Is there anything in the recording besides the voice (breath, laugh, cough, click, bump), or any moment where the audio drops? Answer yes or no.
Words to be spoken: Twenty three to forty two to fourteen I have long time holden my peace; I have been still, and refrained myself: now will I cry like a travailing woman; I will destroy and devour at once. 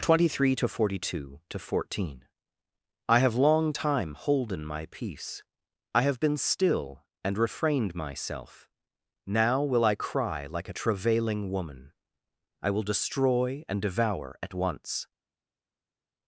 no